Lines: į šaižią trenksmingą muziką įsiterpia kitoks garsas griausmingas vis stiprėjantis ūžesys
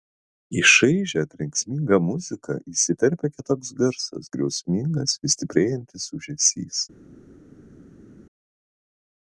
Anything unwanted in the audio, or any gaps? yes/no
no